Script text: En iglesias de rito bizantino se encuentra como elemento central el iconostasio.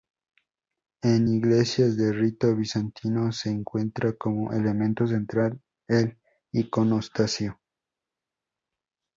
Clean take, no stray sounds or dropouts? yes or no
yes